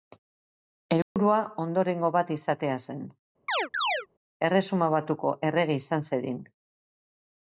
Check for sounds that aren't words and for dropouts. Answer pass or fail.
fail